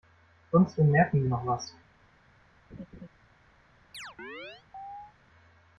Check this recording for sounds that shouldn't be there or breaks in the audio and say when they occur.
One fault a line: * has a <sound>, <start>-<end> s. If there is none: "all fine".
* has a laugh, 2.7-3.1 s
* has a chirp, 3.9-5.1 s